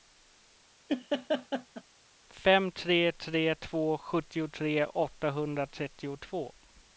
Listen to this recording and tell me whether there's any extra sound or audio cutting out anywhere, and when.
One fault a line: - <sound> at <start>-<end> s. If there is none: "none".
- laugh at 0.9-1.8 s